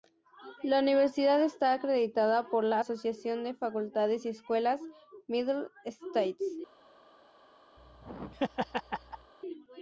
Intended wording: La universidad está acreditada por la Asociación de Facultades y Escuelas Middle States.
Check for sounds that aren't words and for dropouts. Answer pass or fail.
fail